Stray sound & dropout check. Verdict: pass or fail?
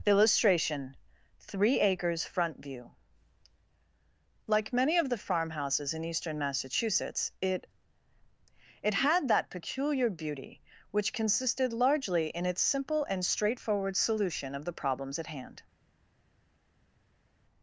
pass